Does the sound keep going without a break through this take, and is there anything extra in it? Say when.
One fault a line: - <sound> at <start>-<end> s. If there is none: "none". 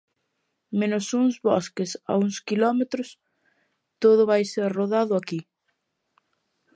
none